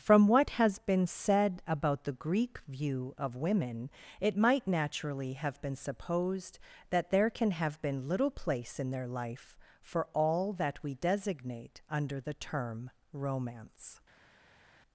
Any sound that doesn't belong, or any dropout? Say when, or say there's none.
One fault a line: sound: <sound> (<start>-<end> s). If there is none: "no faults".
no faults